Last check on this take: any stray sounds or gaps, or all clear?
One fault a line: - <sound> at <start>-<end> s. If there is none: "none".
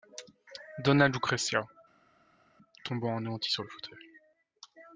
none